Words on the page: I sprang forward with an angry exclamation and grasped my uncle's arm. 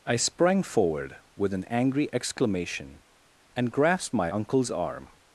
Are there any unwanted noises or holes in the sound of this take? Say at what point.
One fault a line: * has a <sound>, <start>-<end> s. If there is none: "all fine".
all fine